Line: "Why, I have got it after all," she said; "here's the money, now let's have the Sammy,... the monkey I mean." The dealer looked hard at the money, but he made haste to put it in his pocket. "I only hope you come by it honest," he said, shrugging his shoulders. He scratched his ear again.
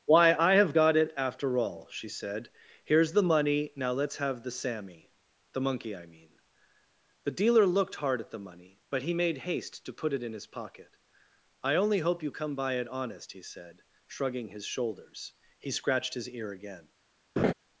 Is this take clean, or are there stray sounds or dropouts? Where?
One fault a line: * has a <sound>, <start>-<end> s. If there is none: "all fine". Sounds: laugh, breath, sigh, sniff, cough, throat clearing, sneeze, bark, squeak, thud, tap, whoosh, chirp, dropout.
* has a laugh, 17.4-17.5 s